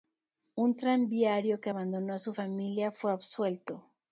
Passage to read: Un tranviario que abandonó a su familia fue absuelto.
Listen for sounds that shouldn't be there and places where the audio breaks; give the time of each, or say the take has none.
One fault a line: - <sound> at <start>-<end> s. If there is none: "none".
none